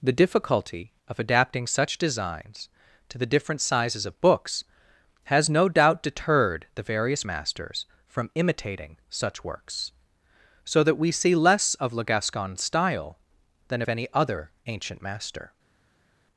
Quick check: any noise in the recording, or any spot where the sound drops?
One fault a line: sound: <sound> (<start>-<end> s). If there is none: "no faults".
no faults